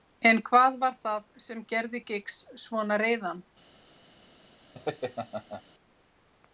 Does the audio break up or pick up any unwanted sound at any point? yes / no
yes